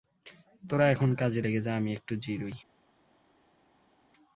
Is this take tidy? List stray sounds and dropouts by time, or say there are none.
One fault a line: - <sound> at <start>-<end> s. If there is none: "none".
none